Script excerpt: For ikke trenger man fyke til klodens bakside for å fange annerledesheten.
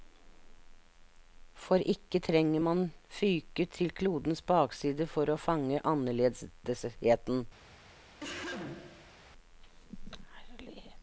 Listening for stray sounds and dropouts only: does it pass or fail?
fail